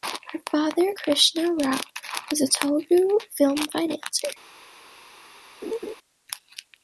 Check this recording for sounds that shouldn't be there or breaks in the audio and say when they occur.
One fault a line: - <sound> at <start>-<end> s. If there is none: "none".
- laugh at 5.6-5.9 s